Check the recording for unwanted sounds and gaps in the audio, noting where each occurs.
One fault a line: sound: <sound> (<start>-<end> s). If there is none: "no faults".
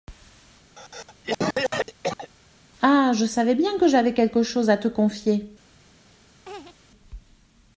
sound: cough (0.7-2.3 s)
sound: laugh (6.5-6.8 s)